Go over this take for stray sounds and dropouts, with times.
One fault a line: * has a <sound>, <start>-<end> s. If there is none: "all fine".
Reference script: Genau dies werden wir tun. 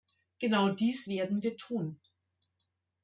all fine